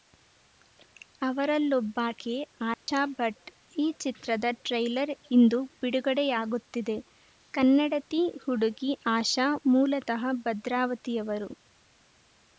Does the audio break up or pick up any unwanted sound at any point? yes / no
yes